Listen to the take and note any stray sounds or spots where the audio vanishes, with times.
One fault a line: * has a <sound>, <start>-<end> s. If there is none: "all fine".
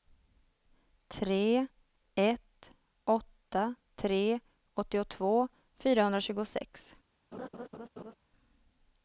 * has a laugh, 7.3-8.1 s